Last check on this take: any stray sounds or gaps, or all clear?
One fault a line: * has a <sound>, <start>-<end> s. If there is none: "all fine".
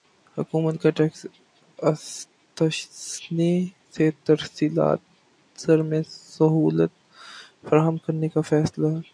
all fine